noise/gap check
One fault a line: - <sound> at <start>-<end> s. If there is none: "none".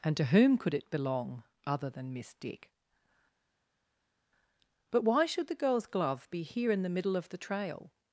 none